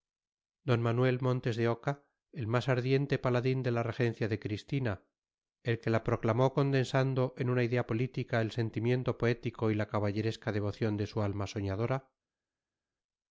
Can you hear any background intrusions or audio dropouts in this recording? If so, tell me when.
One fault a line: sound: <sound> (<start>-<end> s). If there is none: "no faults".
no faults